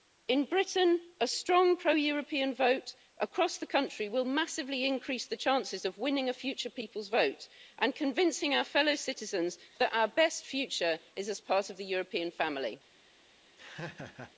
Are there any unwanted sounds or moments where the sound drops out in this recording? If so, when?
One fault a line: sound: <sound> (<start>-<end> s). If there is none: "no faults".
sound: laugh (13.6-14.3 s)